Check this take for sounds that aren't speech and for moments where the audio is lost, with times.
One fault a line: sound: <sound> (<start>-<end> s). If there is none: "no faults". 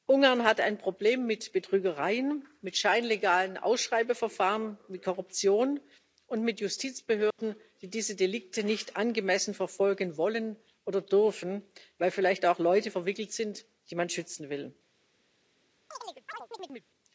sound: dropout (7.3-7.4 s)
sound: chirp (15.9-16.9 s)